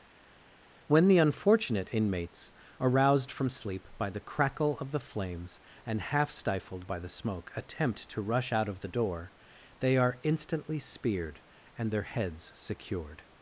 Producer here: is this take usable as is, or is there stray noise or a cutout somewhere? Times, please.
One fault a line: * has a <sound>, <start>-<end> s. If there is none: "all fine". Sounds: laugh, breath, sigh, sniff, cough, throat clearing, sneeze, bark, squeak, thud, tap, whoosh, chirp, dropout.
all fine